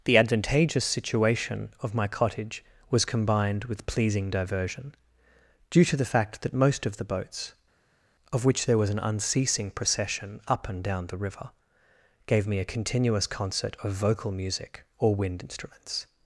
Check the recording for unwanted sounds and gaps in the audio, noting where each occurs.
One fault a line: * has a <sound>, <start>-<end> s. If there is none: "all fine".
all fine